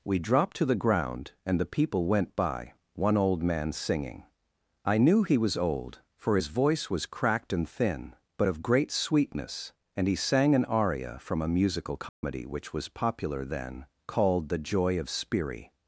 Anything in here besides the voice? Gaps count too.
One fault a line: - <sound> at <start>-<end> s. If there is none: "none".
- dropout at 12.1-12.2 s